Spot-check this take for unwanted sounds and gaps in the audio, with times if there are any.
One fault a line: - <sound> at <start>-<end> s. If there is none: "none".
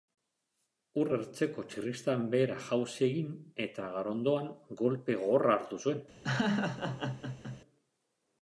- laugh at 6.2-7.6 s